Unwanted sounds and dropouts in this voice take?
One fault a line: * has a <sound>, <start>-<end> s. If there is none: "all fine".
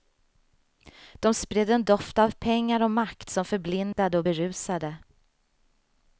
* has a dropout, 3.9-4.0 s